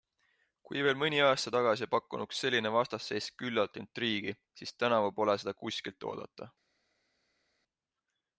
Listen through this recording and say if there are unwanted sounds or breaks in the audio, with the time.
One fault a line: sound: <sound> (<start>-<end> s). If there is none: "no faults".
no faults